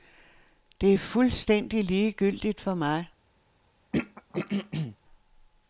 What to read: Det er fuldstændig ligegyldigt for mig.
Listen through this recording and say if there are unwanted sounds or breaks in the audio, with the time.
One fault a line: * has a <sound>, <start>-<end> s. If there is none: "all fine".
* has a throat clearing, 3.9-5.0 s